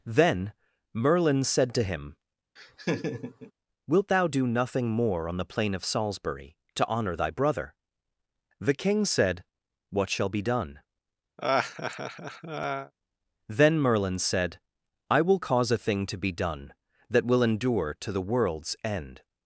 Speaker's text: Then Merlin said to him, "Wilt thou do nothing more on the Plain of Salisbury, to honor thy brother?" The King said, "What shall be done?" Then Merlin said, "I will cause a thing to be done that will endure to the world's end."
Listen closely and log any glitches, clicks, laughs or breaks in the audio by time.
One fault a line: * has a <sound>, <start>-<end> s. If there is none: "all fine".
* has a laugh, 2.6-3.5 s
* has a laugh, 11.4-12.9 s